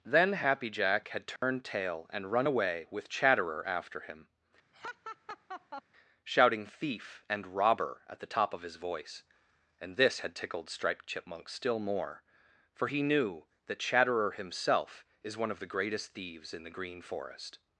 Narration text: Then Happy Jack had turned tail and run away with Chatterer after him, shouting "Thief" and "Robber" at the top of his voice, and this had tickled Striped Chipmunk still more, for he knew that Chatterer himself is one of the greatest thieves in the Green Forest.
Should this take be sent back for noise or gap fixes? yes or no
yes